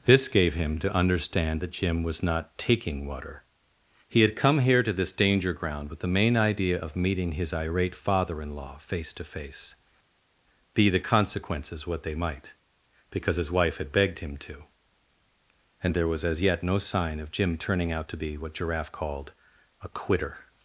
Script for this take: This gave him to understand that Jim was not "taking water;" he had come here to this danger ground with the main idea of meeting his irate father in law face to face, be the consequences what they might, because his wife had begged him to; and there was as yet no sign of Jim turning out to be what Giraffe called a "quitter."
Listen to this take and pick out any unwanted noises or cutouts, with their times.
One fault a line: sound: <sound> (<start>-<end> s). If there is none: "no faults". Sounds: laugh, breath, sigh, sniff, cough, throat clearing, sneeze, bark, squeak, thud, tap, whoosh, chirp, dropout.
no faults